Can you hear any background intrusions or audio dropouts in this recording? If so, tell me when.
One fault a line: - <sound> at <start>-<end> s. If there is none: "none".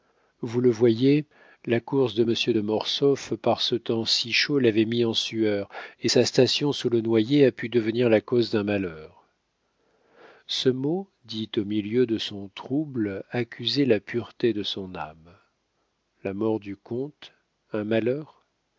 none